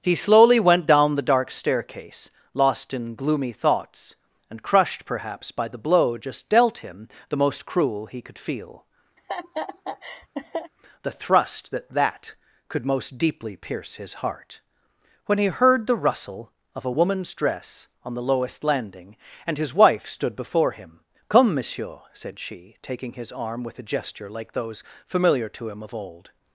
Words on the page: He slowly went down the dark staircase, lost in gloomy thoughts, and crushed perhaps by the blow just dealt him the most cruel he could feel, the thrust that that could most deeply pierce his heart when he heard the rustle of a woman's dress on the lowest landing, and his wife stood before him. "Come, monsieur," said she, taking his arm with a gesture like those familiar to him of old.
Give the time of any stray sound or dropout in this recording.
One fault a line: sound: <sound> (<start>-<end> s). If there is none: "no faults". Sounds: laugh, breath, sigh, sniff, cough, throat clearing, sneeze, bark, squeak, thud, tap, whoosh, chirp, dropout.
sound: laugh (9.2-10.7 s)